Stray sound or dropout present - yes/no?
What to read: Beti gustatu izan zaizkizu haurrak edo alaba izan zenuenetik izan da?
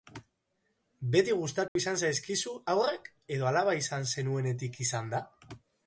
yes